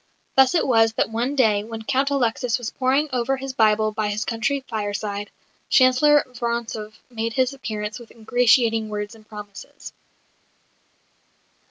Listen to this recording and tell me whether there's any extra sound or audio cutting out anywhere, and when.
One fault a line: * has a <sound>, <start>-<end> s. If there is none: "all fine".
all fine